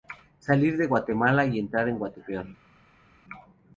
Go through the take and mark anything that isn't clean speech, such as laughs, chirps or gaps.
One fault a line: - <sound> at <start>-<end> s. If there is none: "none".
none